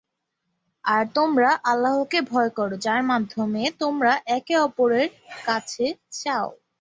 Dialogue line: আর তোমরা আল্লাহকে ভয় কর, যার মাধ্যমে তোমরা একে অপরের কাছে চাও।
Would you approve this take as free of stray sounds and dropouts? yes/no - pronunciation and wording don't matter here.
yes